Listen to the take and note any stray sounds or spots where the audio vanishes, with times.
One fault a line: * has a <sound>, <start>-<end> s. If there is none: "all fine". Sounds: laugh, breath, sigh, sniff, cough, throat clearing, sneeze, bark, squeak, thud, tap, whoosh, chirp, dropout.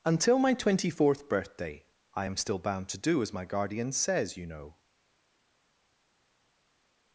all fine